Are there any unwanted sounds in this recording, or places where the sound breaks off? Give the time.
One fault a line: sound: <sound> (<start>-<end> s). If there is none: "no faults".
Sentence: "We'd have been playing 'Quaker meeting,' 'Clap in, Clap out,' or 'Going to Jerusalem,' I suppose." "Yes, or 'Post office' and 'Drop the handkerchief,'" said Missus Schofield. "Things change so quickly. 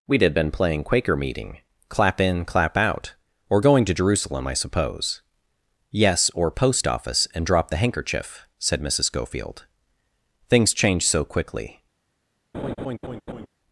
sound: laugh (12.5-13.5 s)